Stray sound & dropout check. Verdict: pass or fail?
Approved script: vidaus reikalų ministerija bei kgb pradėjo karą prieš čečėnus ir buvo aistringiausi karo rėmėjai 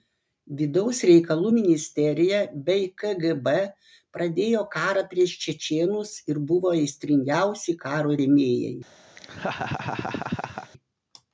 fail